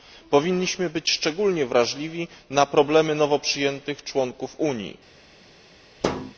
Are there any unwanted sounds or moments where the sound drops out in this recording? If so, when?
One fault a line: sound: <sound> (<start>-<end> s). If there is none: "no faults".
sound: thud (6.0-6.3 s)